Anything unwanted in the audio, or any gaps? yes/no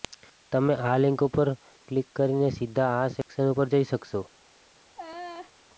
yes